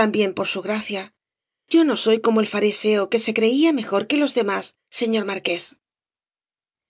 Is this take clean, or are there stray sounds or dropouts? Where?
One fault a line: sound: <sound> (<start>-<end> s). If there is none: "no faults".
no faults